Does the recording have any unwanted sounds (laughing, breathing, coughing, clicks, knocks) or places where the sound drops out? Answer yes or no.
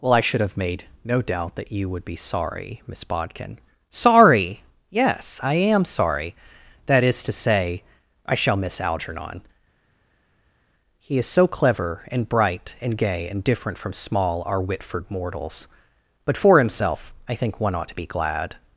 no